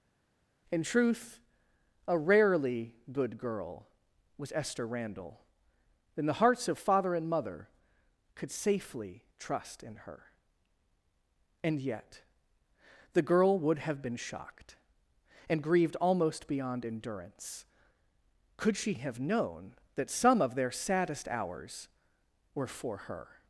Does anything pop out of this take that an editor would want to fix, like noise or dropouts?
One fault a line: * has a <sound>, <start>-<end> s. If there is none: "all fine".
all fine